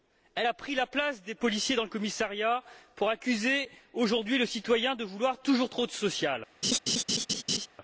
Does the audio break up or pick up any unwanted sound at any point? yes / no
yes